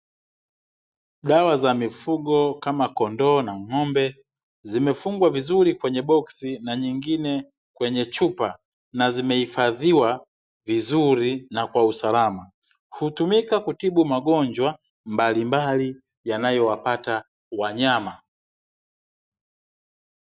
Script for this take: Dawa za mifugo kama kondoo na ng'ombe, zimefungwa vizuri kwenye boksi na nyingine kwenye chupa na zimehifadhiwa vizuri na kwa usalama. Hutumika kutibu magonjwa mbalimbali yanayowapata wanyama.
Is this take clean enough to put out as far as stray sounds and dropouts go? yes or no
yes